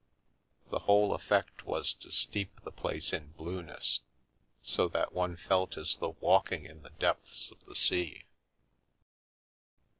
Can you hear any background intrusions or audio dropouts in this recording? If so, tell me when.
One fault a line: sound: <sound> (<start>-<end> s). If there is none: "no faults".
no faults